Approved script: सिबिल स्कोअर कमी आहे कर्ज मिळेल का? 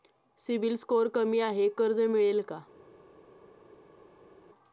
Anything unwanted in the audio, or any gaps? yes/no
no